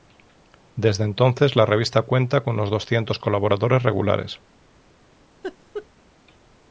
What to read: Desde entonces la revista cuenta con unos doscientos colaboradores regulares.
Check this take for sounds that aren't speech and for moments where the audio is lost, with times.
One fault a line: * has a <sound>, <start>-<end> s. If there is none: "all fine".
* has a laugh, 5.4-5.9 s